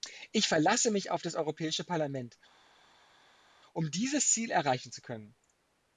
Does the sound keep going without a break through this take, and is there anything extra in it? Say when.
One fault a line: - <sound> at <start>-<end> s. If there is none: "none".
none